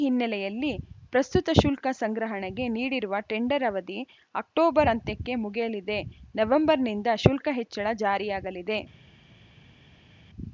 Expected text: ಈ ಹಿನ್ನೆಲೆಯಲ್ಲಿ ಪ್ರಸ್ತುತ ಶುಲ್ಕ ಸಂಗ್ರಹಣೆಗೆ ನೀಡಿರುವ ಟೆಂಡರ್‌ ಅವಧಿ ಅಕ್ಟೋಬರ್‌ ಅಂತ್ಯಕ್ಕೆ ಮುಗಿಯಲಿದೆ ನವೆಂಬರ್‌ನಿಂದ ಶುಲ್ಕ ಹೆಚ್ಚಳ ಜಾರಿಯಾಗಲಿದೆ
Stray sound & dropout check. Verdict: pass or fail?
pass